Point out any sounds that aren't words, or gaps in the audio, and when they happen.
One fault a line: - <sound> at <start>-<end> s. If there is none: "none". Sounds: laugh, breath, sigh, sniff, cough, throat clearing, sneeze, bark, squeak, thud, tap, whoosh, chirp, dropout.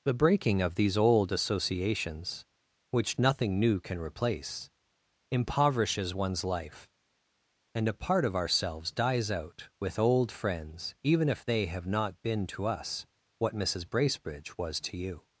none